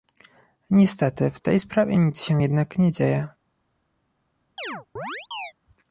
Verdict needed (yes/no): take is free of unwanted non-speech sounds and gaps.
no